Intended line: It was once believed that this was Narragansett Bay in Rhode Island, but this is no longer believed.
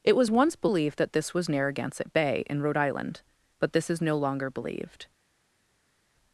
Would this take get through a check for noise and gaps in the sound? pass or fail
pass